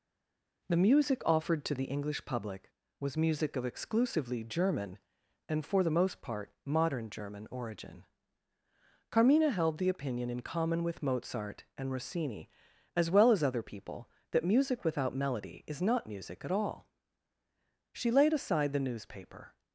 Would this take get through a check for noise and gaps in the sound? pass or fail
pass